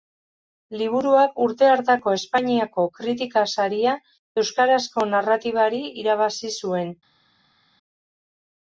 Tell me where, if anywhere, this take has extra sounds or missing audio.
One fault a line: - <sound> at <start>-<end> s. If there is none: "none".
none